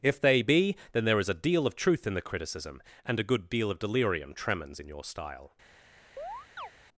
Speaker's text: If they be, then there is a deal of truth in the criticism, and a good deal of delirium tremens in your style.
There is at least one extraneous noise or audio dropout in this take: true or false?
true